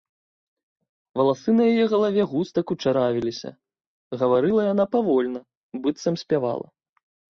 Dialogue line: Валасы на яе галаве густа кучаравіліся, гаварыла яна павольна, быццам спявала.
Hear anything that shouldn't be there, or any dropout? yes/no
no